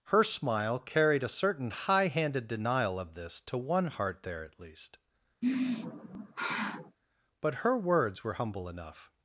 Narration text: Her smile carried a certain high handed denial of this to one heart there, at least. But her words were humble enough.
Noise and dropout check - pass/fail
fail